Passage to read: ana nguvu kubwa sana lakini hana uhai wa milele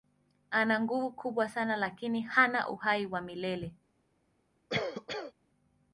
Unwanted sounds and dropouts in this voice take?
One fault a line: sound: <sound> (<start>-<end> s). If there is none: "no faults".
sound: cough (4.7-5.3 s)